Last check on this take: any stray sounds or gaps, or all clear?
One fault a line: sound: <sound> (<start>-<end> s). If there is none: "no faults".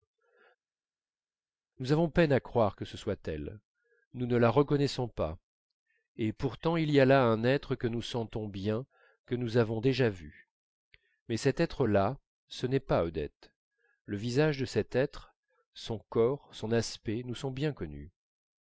no faults